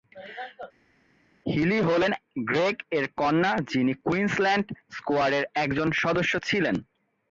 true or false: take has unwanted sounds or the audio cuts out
false